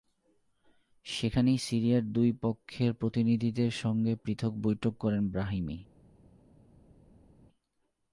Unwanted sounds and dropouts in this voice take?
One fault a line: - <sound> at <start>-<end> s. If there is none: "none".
none